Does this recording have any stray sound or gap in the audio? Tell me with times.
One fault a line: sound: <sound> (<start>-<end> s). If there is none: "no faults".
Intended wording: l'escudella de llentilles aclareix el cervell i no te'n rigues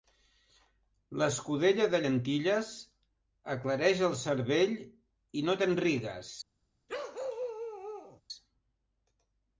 sound: bark (6.9-8.2 s)